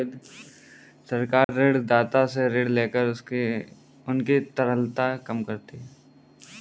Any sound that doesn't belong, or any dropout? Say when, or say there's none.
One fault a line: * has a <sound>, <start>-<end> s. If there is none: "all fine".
* has a dropout, 1.4-1.5 s